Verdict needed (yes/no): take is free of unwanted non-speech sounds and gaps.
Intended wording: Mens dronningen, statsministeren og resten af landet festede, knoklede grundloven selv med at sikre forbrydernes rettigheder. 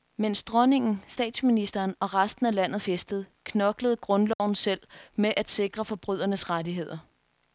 no